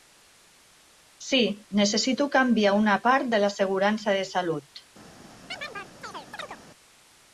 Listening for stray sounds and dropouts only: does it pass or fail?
fail